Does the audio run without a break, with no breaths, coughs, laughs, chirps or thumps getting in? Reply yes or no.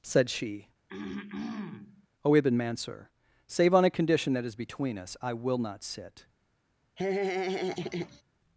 no